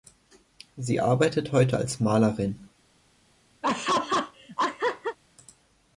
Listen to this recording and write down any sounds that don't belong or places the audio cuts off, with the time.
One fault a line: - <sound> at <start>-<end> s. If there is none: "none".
- laugh at 3.6-5.2 s